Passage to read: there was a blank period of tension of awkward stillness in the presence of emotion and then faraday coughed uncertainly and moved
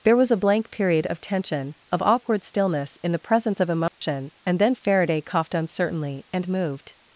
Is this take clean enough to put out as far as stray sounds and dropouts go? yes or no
no